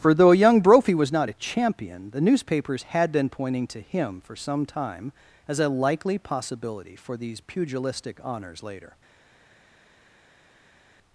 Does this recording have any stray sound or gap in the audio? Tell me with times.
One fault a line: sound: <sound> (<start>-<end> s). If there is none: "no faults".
no faults